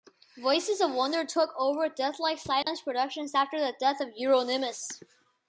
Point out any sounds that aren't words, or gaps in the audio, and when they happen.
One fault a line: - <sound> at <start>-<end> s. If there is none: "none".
- dropout at 2.6-2.7 s